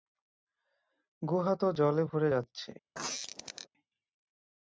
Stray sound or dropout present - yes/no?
yes